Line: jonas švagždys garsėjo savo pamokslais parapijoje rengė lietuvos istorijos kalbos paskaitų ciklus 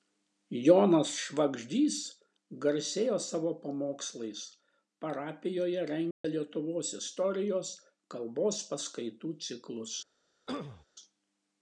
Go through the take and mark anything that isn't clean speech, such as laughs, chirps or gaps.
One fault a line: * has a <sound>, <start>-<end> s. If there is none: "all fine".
* has a dropout, 6.1-6.2 s
* has a throat clearing, 10.5-10.9 s